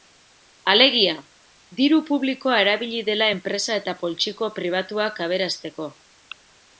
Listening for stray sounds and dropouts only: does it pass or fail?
pass